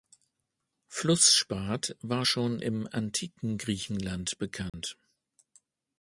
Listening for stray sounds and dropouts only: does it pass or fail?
fail